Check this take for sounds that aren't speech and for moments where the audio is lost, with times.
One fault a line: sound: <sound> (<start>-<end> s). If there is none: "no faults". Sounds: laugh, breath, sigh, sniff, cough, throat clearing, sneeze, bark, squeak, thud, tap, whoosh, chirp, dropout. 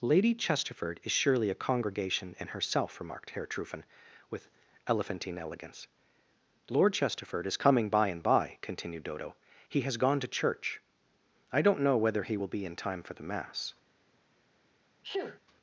sound: sneeze (15.0-15.4 s)